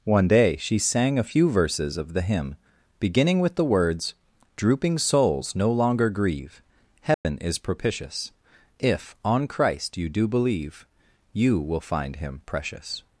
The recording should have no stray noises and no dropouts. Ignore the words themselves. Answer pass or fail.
fail